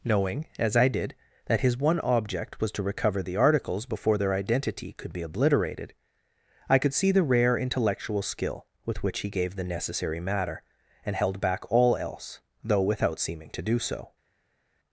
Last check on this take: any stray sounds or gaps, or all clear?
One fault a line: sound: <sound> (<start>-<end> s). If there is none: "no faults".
no faults